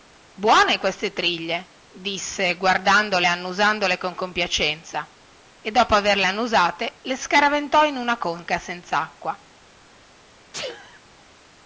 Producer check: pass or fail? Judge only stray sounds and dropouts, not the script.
fail